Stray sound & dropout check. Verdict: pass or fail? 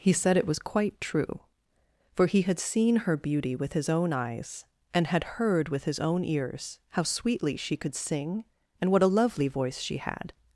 pass